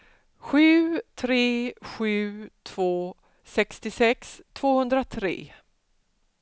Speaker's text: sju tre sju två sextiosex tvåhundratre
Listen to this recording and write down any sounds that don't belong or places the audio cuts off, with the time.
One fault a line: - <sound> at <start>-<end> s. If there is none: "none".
none